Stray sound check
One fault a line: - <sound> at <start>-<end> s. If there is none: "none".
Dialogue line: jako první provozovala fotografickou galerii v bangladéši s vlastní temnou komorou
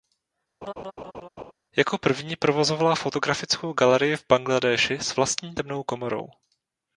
- laugh at 0.6-1.5 s